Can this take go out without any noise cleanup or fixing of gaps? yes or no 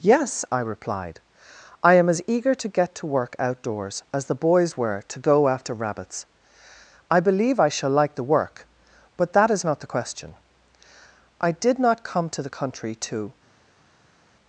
yes